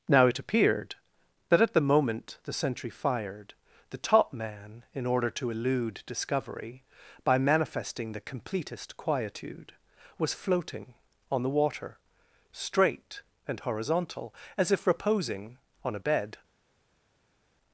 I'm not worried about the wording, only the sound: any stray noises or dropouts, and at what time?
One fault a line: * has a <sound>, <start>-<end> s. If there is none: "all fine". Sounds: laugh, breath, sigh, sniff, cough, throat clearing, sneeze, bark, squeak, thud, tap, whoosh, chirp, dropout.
all fine